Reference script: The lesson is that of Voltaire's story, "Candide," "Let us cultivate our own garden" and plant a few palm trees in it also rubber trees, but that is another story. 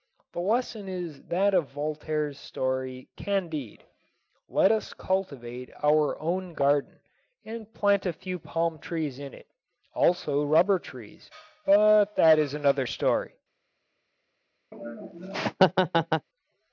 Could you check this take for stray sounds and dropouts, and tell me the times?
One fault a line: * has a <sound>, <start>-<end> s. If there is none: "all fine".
* has a laugh, 14.7-16.3 s